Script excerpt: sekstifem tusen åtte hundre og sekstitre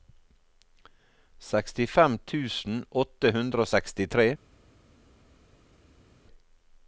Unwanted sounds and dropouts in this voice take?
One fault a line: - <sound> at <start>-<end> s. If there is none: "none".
none